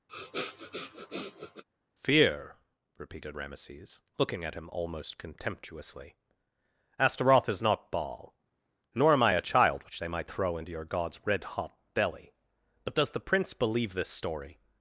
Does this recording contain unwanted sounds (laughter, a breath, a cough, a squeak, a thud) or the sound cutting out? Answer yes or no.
yes